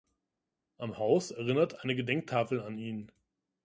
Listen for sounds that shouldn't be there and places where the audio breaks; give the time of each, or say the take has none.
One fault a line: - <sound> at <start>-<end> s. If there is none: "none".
none